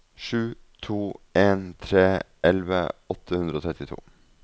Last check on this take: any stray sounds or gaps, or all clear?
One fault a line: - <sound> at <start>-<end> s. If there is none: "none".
none